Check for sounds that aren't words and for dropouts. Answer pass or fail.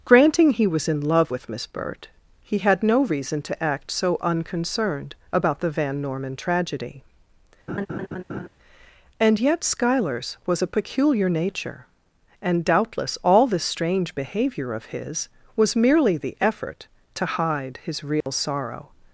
fail